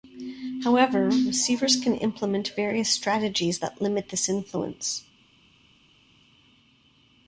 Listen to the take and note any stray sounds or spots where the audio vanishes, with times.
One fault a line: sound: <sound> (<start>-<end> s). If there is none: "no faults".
no faults